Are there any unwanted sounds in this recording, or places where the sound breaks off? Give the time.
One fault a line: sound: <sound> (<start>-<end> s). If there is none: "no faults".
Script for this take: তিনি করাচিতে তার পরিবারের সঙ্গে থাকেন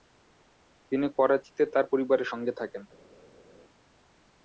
no faults